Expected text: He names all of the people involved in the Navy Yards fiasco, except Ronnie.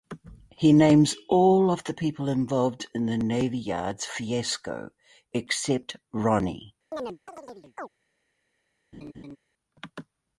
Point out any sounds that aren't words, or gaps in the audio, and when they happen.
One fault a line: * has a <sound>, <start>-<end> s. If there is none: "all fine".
* has a chirp, 6.9-7.9 s
* has a laugh, 8.9-9.4 s